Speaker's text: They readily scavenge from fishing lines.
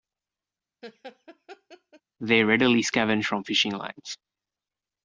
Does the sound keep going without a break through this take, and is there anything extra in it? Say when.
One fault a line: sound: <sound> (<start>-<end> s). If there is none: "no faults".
sound: laugh (0.8-2.0 s)